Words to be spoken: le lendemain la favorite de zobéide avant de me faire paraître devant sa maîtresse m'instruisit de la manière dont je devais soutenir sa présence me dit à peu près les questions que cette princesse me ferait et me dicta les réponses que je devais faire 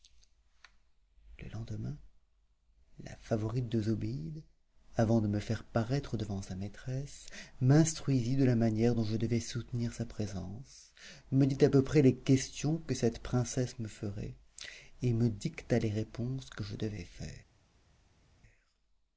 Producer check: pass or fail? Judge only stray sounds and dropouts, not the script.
pass